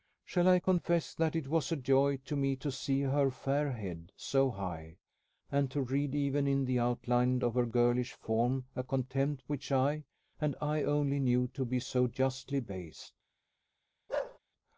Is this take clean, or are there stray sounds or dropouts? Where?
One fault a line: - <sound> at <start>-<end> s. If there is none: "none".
- bark at 14.1-14.4 s